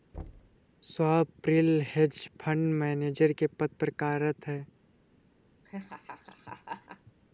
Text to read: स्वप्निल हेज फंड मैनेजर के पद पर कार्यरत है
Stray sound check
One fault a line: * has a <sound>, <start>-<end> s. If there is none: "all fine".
* has a thud, 0.1-0.6 s
* has a laugh, 5.6-7.1 s